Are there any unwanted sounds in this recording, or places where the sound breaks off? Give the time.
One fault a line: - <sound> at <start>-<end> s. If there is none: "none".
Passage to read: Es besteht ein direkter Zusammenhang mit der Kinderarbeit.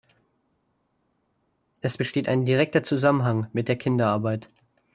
none